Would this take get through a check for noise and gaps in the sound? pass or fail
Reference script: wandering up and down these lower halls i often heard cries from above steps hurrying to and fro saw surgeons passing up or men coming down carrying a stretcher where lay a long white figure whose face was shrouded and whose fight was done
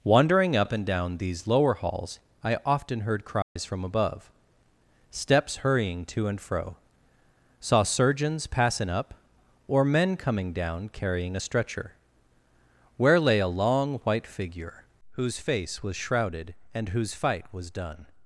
fail